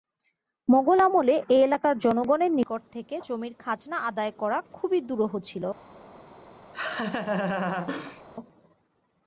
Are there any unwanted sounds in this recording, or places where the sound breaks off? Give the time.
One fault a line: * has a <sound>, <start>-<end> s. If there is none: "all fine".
* has a laugh, 6.7-8.2 s